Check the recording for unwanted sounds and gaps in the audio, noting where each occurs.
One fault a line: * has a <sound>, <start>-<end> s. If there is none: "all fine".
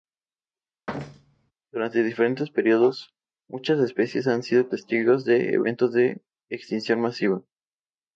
* has a thud, 0.9-1.5 s